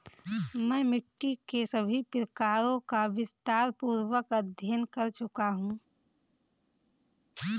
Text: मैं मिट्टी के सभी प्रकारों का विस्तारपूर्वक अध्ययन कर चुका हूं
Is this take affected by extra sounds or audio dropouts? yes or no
no